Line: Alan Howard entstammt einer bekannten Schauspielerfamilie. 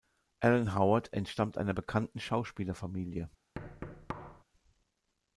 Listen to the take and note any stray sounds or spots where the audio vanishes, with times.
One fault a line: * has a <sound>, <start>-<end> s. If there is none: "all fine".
* has a thud, 3.5-4.4 s